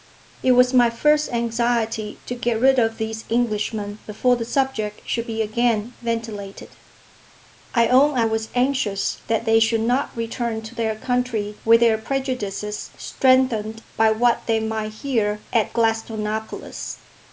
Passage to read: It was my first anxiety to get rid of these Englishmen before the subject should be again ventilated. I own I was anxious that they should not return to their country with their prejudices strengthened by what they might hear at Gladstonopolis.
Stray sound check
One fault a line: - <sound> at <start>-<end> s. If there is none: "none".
none